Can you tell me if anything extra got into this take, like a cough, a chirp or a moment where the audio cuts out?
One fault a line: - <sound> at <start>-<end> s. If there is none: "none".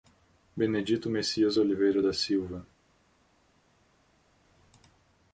none